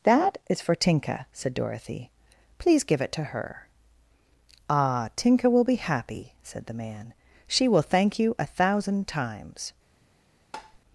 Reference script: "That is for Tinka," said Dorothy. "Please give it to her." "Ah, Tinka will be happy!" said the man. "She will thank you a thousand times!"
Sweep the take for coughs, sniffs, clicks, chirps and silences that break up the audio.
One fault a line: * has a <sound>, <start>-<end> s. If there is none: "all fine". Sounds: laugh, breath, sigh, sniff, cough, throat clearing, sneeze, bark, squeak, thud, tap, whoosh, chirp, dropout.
* has a tap, 10.5-10.8 s